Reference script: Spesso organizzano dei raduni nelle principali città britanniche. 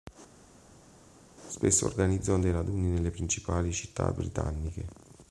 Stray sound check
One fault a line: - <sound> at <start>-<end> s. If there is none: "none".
none